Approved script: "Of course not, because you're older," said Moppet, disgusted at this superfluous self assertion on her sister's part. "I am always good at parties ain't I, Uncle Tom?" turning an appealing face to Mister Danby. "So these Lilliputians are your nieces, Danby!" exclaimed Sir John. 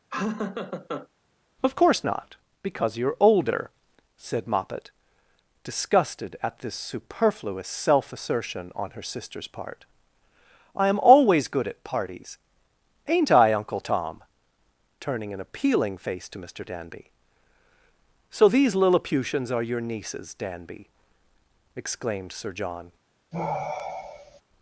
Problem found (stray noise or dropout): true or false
true